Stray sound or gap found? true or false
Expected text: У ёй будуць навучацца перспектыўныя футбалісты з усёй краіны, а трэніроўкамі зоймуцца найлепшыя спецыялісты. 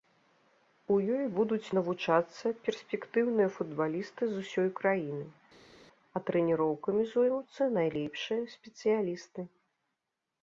false